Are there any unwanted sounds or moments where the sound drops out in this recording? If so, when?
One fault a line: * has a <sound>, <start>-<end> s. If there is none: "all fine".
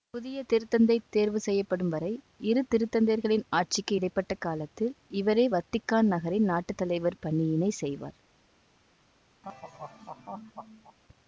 * has a laugh, 9.4-11.0 s